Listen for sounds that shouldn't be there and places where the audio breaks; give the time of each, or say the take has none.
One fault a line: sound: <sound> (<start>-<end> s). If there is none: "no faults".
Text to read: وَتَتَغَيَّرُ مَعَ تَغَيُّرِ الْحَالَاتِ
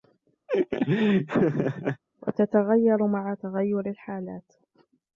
sound: laugh (0.5-2.0 s)